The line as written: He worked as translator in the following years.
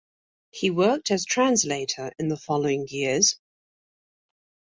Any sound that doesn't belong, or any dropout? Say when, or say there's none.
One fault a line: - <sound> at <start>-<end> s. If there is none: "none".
none